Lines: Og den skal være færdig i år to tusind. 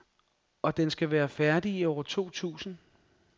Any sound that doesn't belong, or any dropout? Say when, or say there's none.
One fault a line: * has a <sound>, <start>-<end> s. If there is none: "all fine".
all fine